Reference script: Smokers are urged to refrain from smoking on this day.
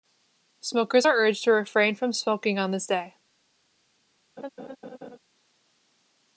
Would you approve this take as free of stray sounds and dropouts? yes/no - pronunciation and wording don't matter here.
no